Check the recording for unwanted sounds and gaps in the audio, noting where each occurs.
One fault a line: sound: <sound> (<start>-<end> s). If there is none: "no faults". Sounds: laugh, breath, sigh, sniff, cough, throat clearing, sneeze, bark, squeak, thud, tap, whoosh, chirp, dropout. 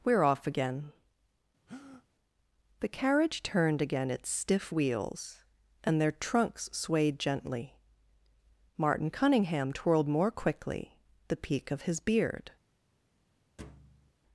sound: breath (1.7-2.1 s)
sound: thud (13.6-14.1 s)